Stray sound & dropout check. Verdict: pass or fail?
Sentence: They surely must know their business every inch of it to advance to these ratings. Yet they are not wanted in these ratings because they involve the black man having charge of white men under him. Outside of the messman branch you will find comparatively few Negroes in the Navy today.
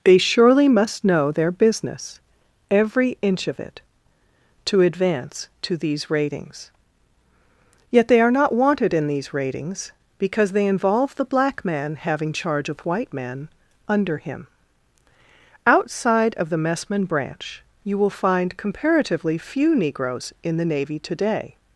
pass